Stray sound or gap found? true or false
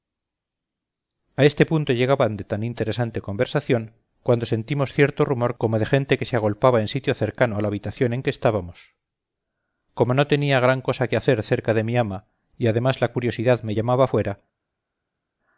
false